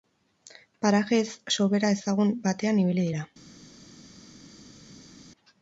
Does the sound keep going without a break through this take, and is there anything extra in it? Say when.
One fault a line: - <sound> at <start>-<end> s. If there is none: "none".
none